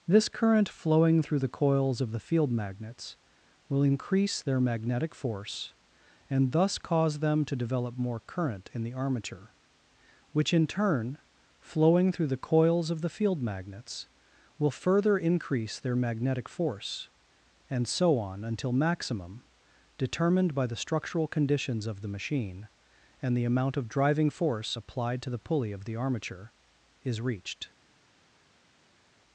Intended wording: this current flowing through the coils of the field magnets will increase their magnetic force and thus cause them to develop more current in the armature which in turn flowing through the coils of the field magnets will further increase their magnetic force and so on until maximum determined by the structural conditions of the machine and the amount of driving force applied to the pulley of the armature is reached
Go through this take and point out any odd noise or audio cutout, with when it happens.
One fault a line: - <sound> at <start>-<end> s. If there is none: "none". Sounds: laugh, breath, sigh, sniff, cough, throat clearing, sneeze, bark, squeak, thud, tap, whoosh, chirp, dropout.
none